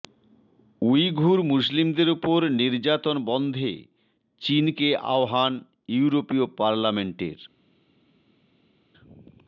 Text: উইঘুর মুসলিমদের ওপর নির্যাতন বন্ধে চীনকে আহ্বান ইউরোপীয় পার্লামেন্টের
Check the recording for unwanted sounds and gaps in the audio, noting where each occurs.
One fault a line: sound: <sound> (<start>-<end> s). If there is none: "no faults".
no faults